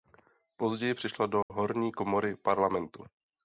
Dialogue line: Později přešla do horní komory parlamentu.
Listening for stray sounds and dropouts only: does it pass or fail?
fail